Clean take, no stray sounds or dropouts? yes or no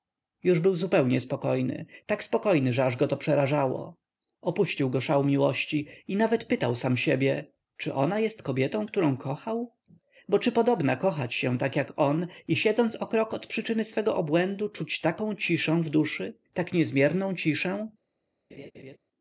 no